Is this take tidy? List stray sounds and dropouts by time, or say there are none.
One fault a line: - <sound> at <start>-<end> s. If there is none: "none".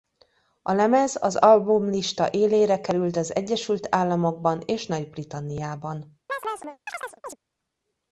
- chirp at 6.3-7.4 s